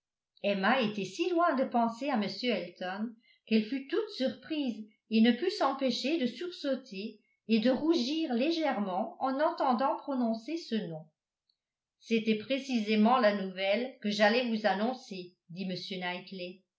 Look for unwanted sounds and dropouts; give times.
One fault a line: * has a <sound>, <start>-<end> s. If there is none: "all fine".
all fine